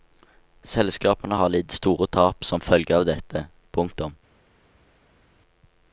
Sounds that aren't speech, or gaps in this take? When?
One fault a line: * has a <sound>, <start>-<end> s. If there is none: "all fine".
all fine